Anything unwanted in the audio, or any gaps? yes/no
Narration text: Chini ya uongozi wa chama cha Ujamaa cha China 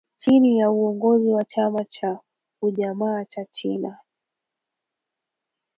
no